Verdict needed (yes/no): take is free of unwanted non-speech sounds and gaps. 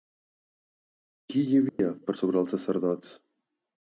no